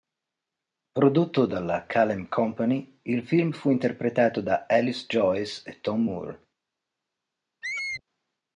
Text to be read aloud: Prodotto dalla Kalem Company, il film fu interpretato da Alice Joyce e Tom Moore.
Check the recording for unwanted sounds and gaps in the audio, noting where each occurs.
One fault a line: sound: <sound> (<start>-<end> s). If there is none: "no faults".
sound: squeak (7.6-8.0 s)